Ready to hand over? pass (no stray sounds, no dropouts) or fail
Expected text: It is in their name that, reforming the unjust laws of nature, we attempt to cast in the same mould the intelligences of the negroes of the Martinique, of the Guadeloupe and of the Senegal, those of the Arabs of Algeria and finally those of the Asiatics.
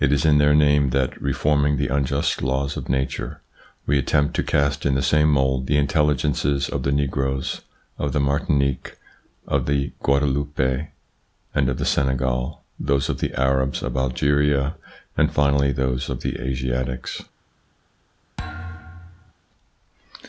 fail